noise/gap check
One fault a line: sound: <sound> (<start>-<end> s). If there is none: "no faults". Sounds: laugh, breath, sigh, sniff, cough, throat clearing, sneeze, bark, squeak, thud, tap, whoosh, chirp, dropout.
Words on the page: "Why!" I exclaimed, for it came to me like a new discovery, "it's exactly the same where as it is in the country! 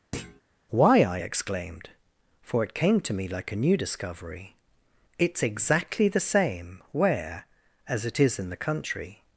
sound: thud (0.1-0.4 s)